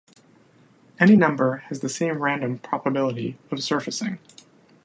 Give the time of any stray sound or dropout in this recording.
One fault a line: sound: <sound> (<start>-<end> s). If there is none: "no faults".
no faults